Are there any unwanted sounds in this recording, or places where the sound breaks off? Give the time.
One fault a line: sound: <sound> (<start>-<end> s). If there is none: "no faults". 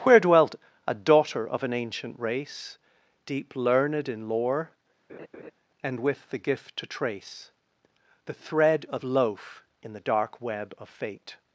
sound: laugh (5.1-5.5 s)